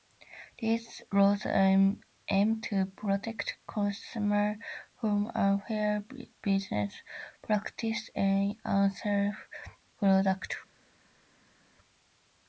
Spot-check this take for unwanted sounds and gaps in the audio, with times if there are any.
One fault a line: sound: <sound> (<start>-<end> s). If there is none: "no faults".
no faults